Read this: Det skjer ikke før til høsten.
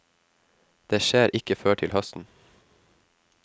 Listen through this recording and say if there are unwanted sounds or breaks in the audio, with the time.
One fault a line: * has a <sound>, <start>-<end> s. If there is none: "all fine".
all fine